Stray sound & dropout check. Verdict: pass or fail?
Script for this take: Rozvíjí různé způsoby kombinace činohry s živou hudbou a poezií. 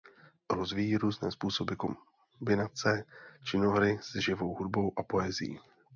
pass